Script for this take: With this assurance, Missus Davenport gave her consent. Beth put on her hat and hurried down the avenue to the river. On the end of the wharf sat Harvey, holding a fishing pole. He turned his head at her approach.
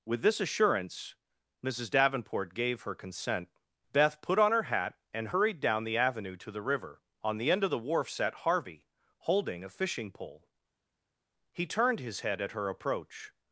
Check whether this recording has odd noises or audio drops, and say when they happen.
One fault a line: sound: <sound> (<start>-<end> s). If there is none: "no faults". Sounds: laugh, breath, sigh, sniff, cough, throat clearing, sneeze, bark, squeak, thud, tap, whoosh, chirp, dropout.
no faults